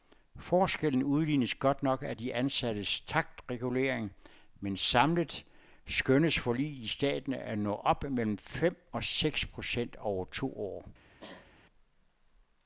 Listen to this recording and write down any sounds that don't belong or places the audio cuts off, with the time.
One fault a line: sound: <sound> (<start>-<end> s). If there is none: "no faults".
sound: cough (11.2-11.5 s)